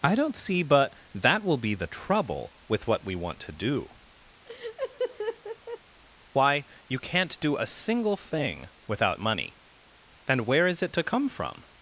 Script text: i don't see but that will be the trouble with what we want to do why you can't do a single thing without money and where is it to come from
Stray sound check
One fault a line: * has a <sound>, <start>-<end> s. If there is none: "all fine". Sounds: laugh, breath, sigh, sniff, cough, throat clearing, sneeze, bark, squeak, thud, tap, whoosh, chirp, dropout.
* has a laugh, 4.5-5.8 s